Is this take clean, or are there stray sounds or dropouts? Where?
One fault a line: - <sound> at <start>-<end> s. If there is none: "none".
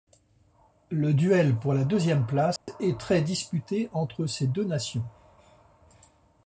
- dropout at 2.6-2.7 s